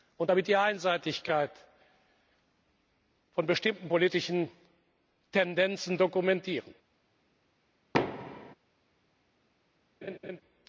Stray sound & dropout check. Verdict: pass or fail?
fail